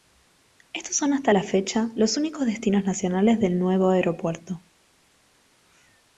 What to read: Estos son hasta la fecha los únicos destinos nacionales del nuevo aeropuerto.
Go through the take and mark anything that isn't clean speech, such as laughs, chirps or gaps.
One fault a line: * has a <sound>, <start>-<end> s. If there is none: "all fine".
all fine